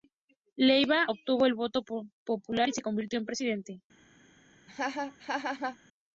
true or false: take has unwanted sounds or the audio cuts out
true